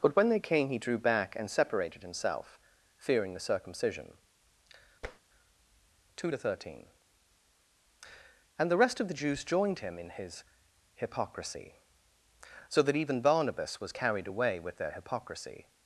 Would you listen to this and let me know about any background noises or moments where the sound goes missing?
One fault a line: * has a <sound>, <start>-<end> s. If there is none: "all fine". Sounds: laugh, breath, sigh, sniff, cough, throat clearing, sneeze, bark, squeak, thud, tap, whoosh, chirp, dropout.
* has a tap, 5.0-5.2 s